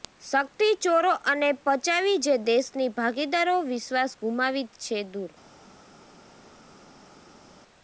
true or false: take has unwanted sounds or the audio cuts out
false